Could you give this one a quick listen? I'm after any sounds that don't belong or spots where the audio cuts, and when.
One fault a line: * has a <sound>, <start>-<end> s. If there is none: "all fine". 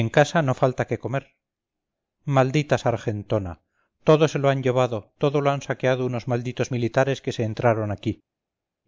all fine